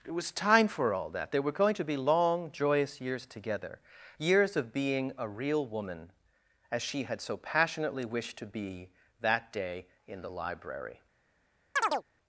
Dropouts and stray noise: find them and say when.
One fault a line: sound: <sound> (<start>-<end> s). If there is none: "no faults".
sound: chirp (11.8-12.0 s)